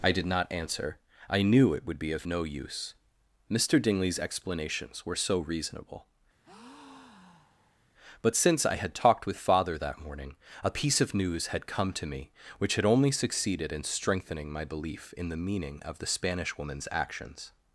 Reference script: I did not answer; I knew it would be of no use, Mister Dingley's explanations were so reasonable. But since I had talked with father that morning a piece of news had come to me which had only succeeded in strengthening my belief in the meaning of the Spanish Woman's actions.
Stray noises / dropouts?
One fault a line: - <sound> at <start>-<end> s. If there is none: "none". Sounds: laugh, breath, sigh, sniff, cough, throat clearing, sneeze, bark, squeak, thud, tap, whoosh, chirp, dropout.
- breath at 6.4-7.8 s